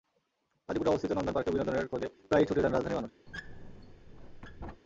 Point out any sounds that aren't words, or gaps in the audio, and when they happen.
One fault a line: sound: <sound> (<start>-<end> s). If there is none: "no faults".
sound: squeak (3.3-4.8 s)